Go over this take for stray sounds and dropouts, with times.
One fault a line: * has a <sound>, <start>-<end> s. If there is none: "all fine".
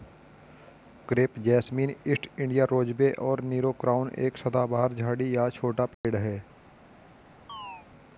* has a dropout, 5.9-6.0 s
* has a chirp, 7.5-7.9 s